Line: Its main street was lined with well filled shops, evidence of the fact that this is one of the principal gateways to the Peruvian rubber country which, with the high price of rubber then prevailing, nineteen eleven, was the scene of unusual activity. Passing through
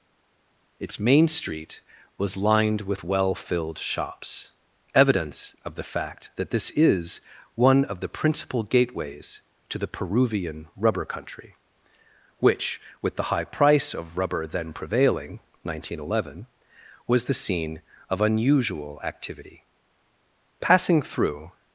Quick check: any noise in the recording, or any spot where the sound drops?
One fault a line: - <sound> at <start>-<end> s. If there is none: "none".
none